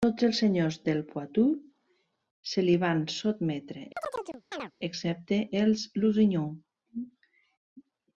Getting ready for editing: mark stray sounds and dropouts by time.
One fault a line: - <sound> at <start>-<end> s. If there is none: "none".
- chirp at 4.0-4.7 s